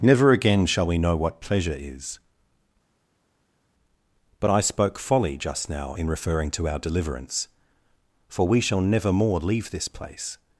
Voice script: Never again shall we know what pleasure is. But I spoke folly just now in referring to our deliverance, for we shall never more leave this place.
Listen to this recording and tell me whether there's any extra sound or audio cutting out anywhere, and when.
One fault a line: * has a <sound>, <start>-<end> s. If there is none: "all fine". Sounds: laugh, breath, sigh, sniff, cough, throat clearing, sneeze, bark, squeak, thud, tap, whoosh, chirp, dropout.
all fine